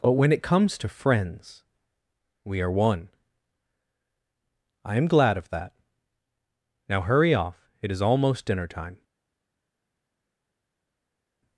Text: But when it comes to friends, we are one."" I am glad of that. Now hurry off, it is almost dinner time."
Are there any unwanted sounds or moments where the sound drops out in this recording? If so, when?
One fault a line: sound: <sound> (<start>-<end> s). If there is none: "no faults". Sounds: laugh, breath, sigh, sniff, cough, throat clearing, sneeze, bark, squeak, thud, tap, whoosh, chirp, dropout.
no faults